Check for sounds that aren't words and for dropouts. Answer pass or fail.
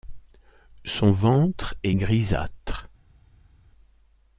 pass